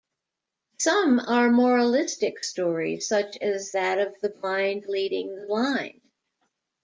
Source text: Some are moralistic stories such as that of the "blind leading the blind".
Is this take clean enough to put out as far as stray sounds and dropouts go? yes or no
yes